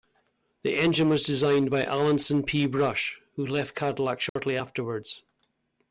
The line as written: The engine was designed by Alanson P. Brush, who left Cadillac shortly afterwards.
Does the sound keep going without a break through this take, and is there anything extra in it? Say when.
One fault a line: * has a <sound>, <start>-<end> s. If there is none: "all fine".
* has a dropout, 4.3-4.4 s